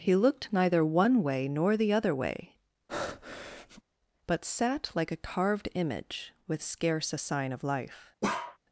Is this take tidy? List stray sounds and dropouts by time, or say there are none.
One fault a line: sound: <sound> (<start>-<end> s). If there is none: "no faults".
sound: breath (2.9-3.8 s)
sound: bark (8.2-8.6 s)